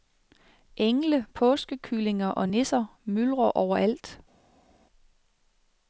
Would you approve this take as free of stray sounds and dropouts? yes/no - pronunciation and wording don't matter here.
yes